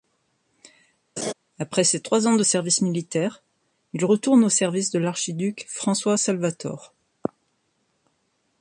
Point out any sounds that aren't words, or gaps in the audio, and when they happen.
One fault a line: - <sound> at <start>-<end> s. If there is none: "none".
- laugh at 1.2-1.3 s